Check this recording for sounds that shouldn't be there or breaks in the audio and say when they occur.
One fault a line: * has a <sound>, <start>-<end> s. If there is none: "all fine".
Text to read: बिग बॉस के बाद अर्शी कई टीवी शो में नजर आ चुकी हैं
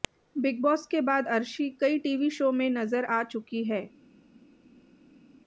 all fine